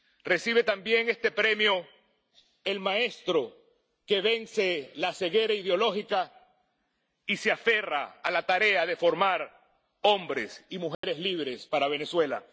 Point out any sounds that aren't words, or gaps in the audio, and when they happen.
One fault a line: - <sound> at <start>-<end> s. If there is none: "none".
- dropout at 10.9-11.0 s